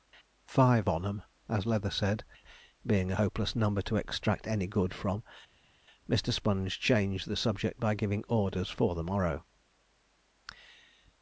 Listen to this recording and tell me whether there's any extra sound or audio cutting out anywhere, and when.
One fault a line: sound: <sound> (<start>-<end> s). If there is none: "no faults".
no faults